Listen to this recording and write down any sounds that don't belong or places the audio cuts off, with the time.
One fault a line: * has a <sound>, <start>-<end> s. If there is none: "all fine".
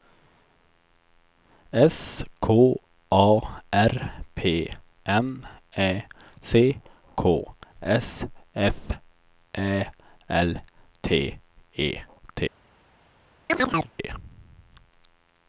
* has a chirp, 13.5-13.9 s